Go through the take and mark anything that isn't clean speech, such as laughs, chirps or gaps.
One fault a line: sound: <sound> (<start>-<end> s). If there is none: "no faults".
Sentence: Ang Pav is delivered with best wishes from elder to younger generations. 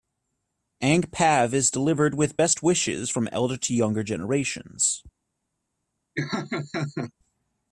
sound: laugh (6.2-7.1 s)